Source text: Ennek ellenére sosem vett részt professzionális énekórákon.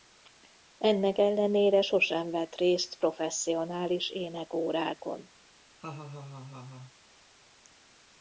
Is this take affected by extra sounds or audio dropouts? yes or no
yes